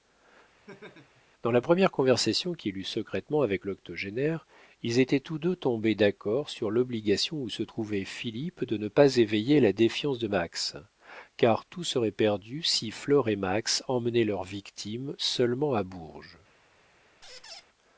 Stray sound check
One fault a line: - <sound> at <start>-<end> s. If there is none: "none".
- laugh at 0.7-1.2 s
- squeak at 17.2-17.6 s